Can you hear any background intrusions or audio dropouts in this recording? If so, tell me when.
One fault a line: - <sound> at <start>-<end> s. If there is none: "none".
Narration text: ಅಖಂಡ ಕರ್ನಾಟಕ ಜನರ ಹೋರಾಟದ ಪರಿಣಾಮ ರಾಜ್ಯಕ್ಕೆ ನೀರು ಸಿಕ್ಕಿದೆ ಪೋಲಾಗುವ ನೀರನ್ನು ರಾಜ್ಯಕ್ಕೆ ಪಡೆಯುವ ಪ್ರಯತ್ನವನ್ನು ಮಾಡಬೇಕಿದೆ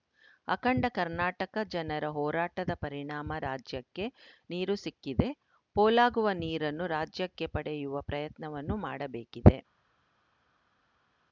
none